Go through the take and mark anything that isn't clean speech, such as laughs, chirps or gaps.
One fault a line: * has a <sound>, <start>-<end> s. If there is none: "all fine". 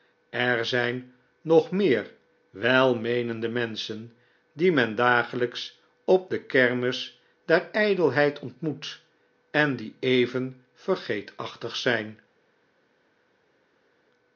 all fine